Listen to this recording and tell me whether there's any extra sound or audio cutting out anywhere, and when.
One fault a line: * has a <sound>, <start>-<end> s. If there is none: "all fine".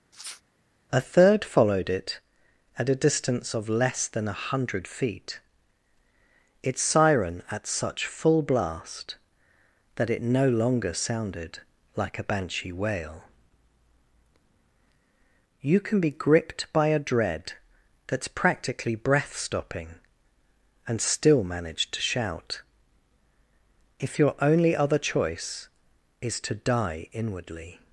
* has a sniff, 0.1-0.4 s